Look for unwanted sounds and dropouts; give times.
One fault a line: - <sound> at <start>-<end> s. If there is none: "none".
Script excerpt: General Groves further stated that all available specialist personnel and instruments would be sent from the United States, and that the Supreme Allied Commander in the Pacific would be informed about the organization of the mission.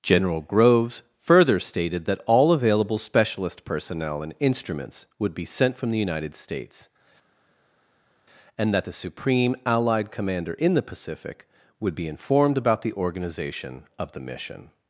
none